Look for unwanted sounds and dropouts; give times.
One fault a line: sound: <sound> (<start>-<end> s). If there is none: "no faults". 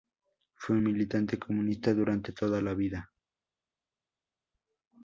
no faults